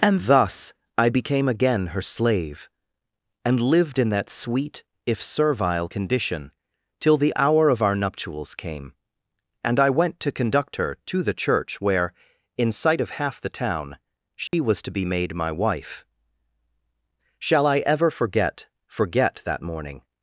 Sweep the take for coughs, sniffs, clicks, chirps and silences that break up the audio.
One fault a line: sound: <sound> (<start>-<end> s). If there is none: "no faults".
sound: dropout (14.5-14.5 s)